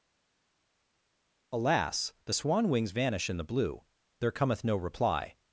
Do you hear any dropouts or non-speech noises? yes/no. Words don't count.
no